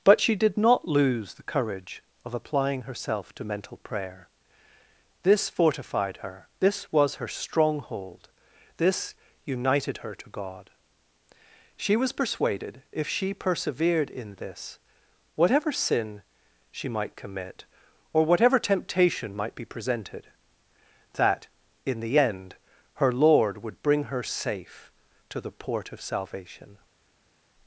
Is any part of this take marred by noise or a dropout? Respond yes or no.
no